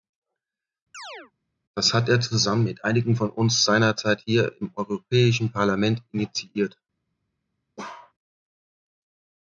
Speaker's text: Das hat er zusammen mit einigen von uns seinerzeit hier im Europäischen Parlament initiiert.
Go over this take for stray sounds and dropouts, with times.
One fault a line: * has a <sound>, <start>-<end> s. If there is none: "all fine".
* has a chirp, 0.9-1.3 s
* has a bark, 7.8-8.1 s